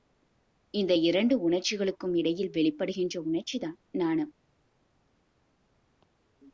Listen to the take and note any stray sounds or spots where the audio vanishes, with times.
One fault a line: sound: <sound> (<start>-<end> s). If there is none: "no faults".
no faults